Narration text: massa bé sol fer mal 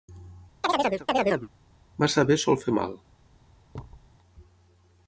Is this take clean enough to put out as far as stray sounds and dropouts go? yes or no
no